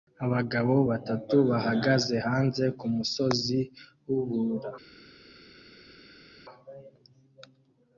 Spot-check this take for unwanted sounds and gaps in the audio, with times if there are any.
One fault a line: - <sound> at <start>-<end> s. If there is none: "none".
none